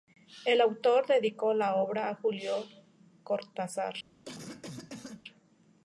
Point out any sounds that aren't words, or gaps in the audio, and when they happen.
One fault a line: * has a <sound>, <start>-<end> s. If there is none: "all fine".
* has a cough, 4.2-5.2 s